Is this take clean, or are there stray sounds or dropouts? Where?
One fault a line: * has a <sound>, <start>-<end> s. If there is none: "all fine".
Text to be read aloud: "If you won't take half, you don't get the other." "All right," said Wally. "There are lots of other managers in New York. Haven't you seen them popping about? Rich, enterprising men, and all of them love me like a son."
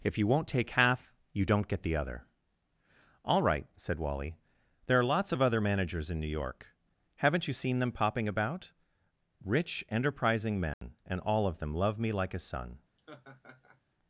* has a dropout, 10.7-10.8 s
* has a laugh, 13.0-13.8 s